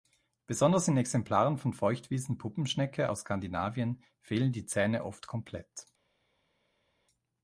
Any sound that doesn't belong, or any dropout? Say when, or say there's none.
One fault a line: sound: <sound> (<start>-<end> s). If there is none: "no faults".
no faults